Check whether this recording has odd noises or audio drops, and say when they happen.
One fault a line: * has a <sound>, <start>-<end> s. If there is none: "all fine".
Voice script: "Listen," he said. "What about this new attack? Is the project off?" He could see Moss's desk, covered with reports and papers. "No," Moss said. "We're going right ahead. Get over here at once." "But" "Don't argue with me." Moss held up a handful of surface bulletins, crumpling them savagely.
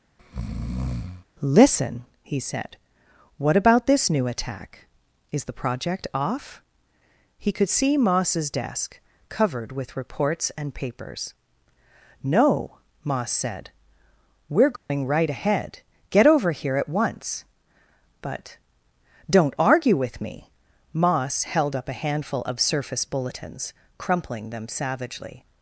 * has a breath, 0.2-1.3 s
* has a dropout, 14.8-14.9 s